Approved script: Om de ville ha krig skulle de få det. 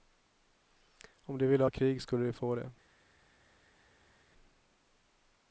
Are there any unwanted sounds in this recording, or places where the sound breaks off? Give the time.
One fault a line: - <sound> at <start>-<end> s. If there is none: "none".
none